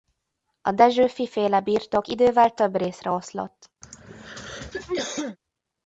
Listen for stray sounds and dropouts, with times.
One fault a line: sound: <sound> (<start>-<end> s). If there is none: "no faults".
sound: throat clearing (3.8-5.4 s)